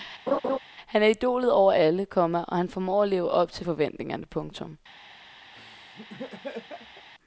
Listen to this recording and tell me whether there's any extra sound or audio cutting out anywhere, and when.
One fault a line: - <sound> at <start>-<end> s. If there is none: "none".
- laugh at 0.3-0.6 s
- laugh at 5.5-7.1 s